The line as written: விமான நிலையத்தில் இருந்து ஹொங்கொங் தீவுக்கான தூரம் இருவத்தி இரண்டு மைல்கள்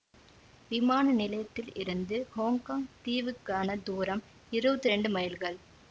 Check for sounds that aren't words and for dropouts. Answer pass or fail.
pass